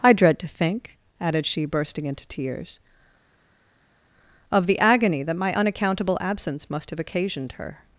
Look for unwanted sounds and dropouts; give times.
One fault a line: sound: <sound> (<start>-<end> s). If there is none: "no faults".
no faults